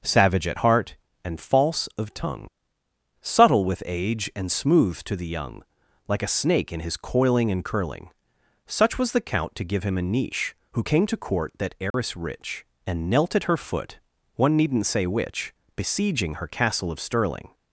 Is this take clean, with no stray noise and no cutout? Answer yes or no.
no